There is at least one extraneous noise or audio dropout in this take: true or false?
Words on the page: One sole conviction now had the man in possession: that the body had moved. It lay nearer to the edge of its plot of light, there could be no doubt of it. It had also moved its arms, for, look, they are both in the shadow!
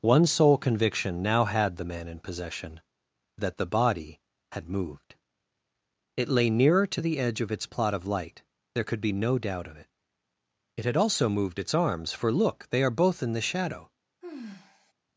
true